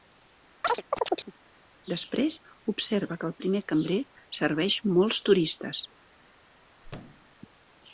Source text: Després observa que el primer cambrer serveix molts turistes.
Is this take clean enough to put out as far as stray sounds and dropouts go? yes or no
no